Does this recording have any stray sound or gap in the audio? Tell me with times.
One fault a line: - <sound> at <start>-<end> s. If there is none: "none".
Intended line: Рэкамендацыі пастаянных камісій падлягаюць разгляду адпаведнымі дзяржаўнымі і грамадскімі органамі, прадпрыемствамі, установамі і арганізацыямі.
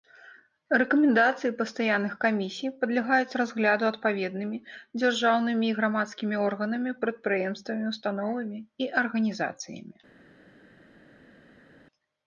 none